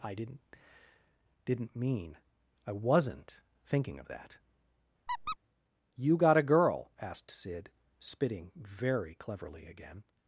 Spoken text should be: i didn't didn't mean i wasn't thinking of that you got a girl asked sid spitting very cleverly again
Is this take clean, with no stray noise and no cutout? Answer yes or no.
no